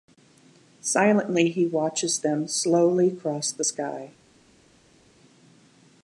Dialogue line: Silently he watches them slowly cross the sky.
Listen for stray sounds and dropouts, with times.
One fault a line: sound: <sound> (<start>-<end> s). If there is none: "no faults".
no faults